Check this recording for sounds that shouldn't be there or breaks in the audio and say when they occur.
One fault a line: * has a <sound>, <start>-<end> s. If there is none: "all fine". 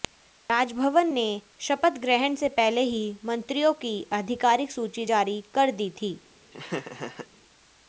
* has a laugh, 6.5-7.3 s